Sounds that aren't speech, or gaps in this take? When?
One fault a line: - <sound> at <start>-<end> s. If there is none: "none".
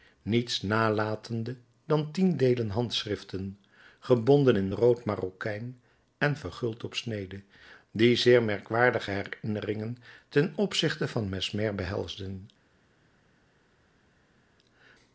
none